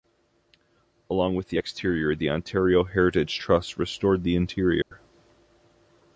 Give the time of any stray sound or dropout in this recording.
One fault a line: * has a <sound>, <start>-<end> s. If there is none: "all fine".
* has a dropout, 4.8-4.9 s